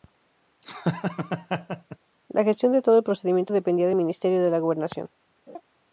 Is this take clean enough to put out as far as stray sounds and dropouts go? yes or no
no